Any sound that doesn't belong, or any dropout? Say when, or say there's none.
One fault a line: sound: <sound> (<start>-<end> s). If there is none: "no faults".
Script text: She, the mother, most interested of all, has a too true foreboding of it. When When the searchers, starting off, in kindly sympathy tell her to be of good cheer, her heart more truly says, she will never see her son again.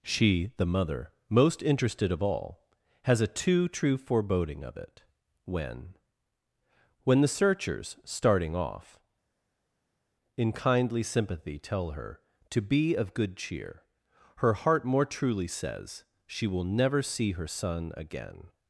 no faults